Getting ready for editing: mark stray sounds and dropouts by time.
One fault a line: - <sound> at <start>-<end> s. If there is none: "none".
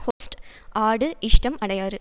- dropout at 0.1-0.2 s